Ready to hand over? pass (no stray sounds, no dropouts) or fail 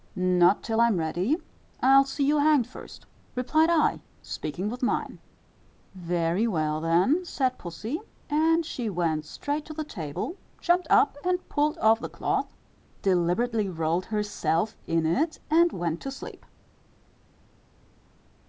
pass